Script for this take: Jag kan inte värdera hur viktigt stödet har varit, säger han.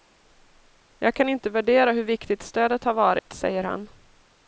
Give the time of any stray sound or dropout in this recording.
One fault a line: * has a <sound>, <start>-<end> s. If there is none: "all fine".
* has a dropout, 3.2-3.3 s